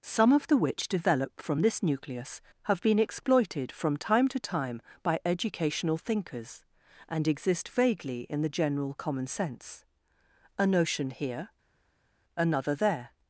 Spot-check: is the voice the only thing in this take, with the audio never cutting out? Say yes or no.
yes